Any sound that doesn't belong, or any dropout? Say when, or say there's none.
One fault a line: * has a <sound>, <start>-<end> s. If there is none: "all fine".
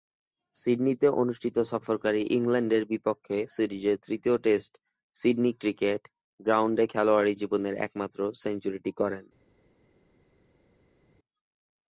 all fine